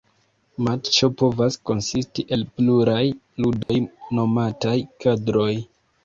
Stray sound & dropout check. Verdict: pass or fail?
fail